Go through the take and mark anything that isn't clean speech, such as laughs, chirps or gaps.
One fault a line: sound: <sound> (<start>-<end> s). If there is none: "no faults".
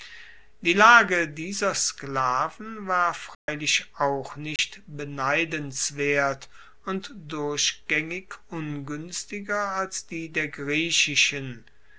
sound: dropout (3.3-3.5 s)
sound: dropout (4.6-4.6 s)